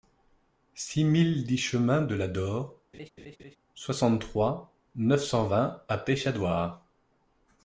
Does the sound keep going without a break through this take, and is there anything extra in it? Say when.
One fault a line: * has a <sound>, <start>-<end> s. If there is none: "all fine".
* has a laugh, 2.9-3.6 s